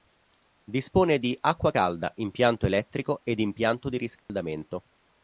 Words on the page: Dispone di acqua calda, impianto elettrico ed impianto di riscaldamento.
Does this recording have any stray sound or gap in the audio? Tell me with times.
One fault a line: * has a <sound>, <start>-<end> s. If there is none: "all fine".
* has a dropout, 4.2-4.3 s